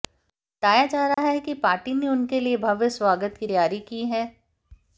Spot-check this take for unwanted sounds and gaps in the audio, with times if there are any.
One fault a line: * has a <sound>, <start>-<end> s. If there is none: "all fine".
* has a dropout, 1.1-1.2 s